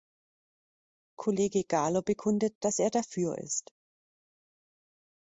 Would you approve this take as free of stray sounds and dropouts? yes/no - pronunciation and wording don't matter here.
yes